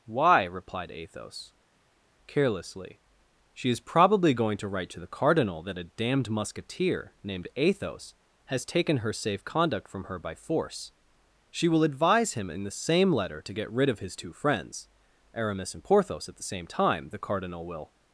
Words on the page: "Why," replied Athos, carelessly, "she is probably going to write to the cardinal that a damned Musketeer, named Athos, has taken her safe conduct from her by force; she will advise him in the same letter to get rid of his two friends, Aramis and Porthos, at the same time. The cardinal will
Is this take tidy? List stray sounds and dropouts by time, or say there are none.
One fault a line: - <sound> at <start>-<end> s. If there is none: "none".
none